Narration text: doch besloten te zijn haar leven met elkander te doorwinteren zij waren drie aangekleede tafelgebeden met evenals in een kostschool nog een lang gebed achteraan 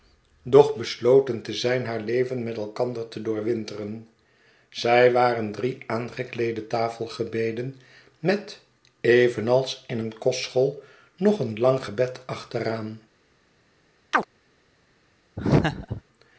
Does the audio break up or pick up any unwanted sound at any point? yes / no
yes